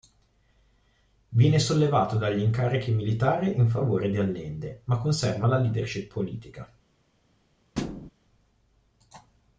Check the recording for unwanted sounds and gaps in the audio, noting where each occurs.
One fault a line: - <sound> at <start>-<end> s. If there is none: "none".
- thud at 7.8-8.1 s